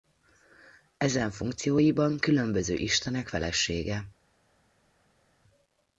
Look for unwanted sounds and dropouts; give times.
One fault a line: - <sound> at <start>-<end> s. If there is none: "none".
none